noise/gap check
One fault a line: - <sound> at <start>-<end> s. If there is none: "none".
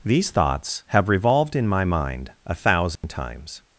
- dropout at 3.0-3.0 s